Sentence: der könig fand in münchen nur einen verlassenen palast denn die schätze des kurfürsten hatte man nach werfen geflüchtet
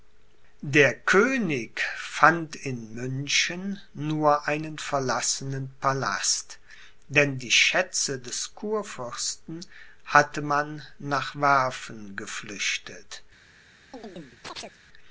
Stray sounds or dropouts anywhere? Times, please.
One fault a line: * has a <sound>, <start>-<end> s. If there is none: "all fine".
* has a chirp, 13.9-14.8 s